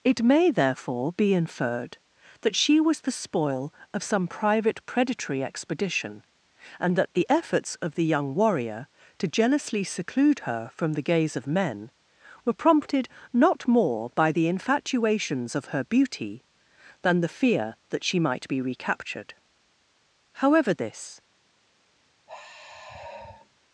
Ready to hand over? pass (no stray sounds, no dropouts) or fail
fail